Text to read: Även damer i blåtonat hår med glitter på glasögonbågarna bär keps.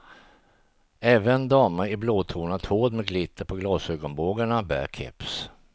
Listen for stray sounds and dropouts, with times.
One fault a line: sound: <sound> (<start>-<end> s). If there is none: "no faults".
no faults